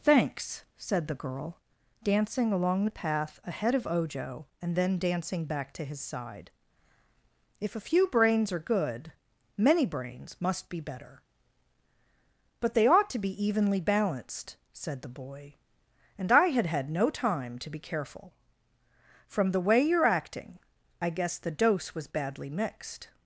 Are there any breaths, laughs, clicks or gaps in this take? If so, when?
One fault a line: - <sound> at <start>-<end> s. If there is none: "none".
none